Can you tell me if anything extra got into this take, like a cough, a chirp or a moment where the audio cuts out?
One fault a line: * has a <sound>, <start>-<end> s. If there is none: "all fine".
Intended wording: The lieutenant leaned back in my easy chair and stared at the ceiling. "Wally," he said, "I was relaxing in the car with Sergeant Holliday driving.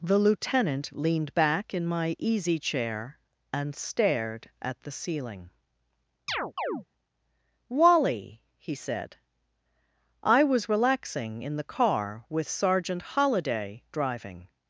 * has a chirp, 6.3-6.9 s